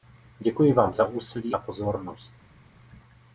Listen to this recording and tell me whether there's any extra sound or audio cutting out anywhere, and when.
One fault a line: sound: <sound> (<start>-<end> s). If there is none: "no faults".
no faults